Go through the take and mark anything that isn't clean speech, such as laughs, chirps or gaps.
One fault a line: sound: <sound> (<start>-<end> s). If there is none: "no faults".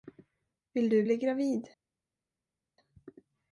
no faults